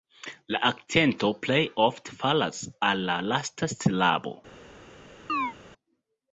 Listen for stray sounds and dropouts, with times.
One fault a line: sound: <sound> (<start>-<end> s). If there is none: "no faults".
sound: chirp (5.3-5.5 s)